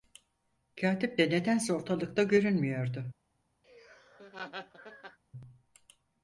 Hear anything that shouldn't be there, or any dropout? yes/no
yes